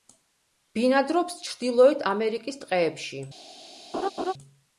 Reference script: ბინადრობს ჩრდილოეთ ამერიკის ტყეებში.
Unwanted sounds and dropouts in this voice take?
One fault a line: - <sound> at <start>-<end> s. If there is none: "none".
- laugh at 3.9-4.3 s